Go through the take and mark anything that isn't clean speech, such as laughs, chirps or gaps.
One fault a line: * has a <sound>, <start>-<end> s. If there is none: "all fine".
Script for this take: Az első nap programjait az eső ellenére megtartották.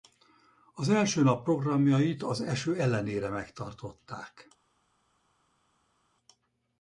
all fine